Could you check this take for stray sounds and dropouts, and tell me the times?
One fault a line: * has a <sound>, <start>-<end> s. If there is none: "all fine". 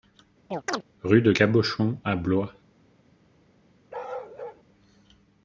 * has a chirp, 0.5-0.8 s
* has a bark, 3.9-4.6 s